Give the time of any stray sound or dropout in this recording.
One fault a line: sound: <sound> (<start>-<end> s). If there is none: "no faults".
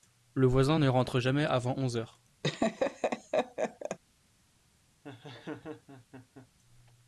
sound: laugh (2.4-4.0 s)
sound: laugh (5.0-6.5 s)